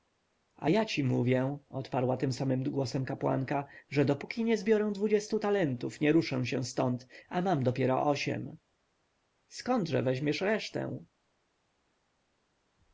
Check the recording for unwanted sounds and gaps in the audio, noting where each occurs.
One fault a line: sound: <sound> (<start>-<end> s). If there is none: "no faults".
no faults